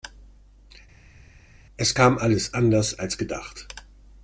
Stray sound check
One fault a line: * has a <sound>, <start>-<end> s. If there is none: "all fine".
all fine